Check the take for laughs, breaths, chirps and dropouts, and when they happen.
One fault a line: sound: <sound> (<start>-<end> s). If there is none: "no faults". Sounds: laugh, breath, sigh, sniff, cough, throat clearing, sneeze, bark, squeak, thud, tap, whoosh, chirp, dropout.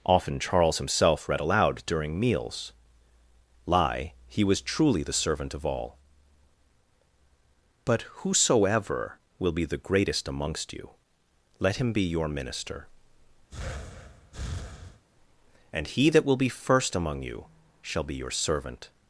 sound: breath (13.5-15.0 s)